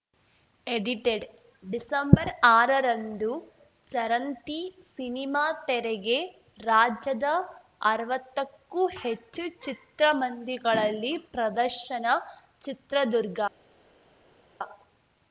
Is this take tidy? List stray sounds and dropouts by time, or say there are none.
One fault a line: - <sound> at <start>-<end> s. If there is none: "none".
none